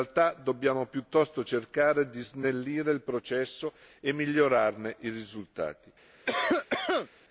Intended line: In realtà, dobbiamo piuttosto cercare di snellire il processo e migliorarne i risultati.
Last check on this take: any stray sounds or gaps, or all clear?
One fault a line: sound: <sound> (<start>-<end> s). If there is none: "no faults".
sound: cough (6.2-7.1 s)